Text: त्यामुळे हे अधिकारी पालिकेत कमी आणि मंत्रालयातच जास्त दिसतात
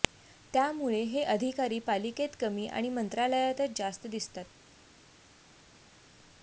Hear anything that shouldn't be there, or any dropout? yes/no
no